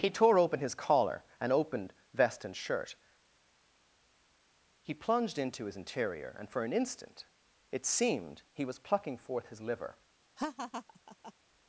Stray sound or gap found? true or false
true